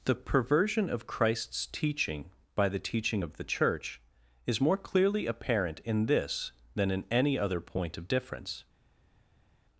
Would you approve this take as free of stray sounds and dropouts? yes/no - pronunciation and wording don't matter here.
yes